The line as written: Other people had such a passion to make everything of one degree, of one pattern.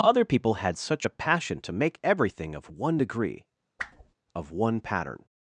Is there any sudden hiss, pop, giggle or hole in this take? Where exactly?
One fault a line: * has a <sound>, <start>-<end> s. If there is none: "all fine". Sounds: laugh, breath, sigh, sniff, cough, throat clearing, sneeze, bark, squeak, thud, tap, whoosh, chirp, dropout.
* has a whoosh, 3.8-4.1 s